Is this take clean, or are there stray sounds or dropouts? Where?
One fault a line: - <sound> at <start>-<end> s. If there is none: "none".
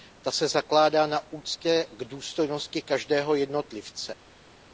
none